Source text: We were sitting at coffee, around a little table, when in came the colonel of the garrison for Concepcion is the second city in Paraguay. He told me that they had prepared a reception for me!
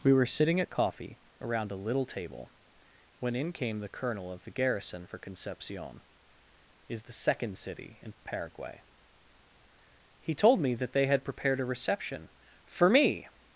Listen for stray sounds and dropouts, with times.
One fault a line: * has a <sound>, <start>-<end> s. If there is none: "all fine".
all fine